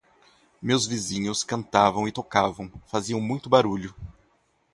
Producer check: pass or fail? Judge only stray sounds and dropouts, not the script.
pass